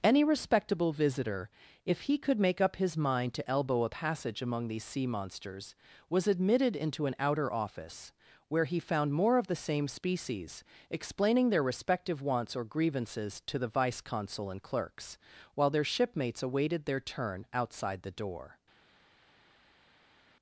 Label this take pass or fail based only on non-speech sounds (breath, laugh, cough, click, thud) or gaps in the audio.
pass